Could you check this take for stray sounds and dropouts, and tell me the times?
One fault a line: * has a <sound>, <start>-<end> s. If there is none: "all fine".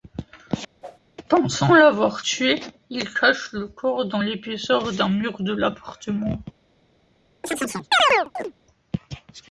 * has a whoosh, 0.8-1.0 s
* has a chirp, 7.4-8.5 s